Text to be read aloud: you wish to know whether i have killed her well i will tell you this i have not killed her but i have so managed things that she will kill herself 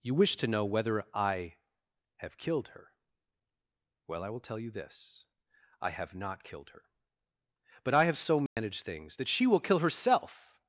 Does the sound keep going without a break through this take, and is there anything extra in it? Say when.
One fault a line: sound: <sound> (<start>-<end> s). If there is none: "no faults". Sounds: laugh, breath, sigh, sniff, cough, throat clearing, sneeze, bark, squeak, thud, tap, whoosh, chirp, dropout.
sound: dropout (8.5-8.6 s)